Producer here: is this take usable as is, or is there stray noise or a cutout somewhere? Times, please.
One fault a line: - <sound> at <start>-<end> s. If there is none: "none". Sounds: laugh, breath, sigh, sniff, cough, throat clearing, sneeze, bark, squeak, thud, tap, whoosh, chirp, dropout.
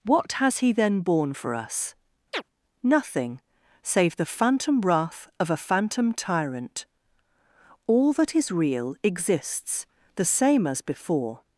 - chirp at 2.3-2.4 s